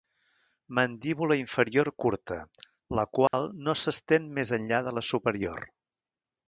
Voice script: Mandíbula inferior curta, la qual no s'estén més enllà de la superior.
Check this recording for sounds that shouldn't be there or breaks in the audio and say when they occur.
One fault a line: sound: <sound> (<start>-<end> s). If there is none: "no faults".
sound: dropout (3.3-3.3 s)